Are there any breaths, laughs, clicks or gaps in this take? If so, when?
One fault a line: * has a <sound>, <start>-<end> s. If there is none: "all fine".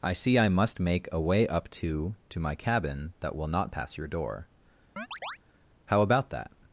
* has a chirp, 5.0-5.4 s